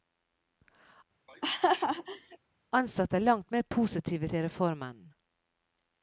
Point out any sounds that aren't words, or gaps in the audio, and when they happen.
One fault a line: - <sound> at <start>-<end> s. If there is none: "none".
- laugh at 1.3-2.4 s